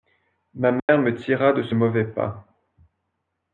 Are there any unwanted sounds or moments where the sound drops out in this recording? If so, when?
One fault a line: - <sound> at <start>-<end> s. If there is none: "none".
- dropout at 0.8-0.9 s